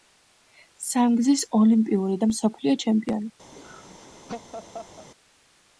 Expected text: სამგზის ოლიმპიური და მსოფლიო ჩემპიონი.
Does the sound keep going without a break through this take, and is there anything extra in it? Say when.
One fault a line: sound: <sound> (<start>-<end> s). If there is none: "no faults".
sound: laugh (3.5-5.1 s)